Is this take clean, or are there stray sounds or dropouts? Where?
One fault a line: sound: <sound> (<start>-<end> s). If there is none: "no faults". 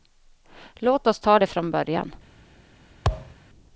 sound: thud (3.0-3.4 s)